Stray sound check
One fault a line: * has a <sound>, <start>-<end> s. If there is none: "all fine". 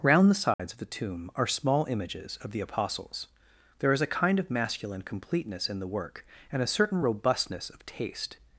* has a dropout, 0.5-0.6 s